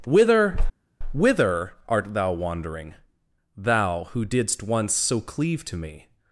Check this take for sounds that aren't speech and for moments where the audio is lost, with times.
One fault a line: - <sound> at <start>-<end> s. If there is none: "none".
none